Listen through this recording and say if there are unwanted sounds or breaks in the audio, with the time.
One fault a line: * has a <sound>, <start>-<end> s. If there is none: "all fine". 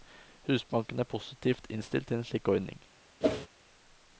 * has a whoosh, 3.2-3.5 s